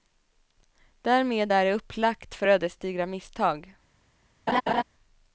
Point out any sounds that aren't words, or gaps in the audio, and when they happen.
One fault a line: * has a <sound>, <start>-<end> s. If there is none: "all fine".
* has a laugh, 4.5-4.8 s